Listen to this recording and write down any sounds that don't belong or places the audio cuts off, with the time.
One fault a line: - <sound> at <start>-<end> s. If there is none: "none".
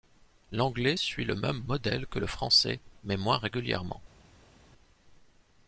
none